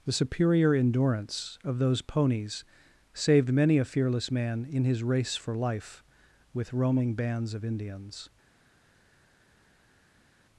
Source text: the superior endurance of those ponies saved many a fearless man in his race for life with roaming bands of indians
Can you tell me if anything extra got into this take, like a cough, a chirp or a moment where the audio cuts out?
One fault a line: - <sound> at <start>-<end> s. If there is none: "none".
none